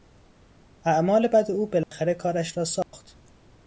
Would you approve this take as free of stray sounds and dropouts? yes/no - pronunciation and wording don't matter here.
no